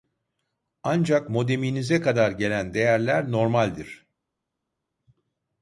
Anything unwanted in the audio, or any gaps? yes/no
no